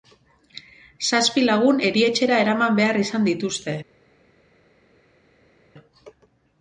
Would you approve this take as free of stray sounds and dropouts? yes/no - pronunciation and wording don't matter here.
yes